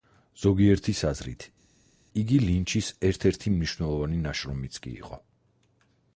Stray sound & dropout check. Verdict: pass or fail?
pass